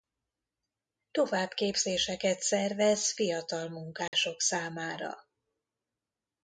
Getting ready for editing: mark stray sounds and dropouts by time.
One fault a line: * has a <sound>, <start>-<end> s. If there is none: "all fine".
* has a dropout, 4.1-4.1 s